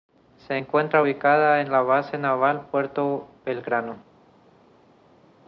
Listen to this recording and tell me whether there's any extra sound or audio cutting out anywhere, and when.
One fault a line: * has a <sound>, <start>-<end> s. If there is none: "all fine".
all fine